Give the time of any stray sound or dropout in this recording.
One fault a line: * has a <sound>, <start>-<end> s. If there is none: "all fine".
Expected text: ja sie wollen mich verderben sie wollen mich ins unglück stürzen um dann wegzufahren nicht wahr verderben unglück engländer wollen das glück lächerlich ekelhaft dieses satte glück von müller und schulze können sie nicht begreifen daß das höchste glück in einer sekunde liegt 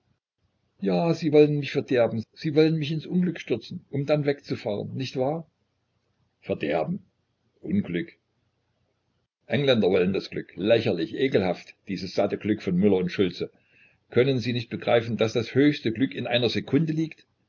all fine